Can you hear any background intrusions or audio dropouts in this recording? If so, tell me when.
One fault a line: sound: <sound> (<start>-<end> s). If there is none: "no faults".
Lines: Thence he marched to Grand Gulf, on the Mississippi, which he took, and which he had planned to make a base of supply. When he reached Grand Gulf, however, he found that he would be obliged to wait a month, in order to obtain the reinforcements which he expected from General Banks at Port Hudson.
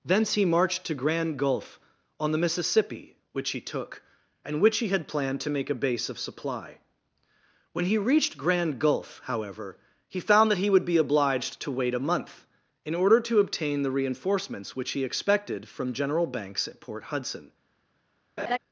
sound: laugh (18.4-18.6 s)